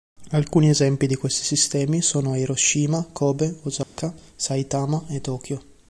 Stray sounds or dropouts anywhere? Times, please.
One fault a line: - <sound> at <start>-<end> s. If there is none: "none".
- dropout at 3.8-4.0 s